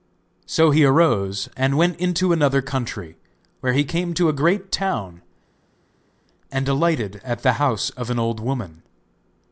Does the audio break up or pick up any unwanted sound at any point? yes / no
no